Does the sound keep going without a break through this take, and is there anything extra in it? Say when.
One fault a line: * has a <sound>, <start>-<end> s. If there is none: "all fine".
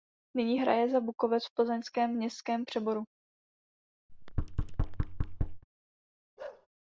* has a thud, 4.1-5.6 s
* has a bark, 6.4-6.7 s